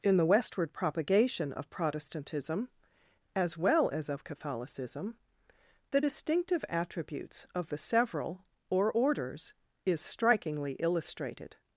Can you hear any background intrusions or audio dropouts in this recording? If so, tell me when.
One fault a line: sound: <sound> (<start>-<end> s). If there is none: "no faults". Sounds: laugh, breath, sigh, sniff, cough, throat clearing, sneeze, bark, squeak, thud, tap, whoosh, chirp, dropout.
no faults